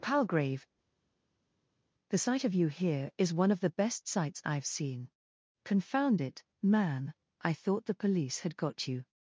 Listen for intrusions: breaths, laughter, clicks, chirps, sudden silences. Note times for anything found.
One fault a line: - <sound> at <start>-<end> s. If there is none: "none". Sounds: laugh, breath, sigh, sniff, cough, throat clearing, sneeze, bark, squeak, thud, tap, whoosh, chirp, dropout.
none